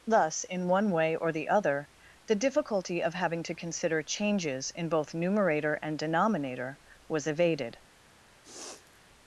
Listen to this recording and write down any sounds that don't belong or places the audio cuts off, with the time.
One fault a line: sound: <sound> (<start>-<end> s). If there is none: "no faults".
sound: sniff (8.4-9.1 s)